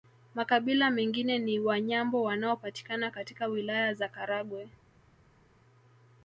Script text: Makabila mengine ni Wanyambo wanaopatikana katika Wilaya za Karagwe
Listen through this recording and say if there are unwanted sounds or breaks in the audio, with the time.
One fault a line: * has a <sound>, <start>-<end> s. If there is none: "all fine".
all fine